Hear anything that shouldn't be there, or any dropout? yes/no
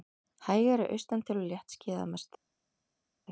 no